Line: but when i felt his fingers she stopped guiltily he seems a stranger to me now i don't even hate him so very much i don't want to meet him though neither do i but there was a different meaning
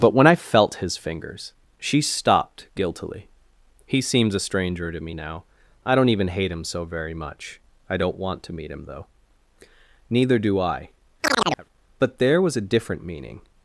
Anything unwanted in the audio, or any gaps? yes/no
yes